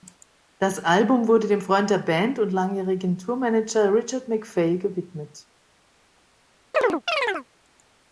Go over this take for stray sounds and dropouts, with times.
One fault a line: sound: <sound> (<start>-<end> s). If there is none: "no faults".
sound: chirp (6.7-7.5 s)